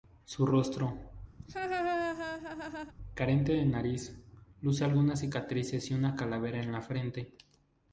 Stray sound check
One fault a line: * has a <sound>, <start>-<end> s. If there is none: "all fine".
* has a laugh, 1.4-2.9 s